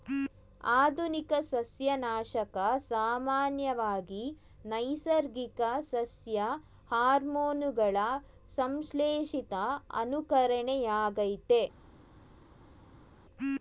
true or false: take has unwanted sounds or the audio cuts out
false